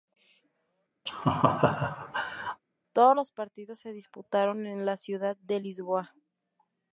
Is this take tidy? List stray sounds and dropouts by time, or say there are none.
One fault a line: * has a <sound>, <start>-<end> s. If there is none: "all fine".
* has a laugh, 1.1-2.6 s